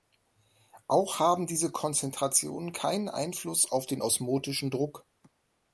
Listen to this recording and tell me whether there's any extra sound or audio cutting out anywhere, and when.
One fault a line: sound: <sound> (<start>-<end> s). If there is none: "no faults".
no faults